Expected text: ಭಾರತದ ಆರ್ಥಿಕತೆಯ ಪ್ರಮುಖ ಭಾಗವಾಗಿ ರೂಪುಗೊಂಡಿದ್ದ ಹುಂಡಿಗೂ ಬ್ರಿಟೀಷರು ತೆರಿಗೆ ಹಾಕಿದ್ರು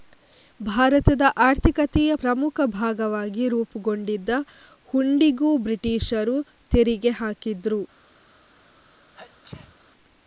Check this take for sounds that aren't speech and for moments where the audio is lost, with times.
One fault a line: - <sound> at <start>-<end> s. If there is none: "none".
- sneeze at 9.2-9.8 s